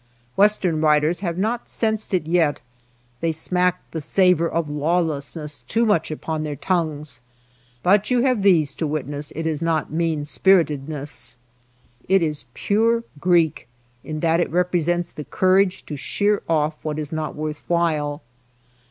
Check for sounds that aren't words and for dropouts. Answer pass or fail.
pass